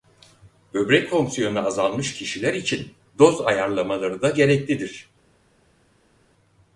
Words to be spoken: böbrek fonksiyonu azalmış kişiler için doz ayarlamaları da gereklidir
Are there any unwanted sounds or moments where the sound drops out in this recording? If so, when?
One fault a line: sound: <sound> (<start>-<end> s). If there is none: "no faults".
no faults